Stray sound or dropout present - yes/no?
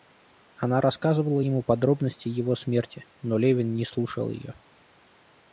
no